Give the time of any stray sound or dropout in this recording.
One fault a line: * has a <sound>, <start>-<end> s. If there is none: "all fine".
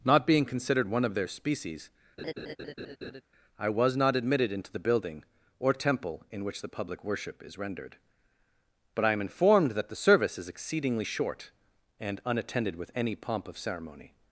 * has a laugh, 2.2-3.2 s